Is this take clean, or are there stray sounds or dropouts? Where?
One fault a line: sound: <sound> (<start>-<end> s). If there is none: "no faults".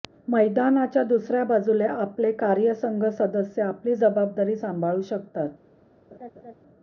sound: laugh (6.1-6.5 s)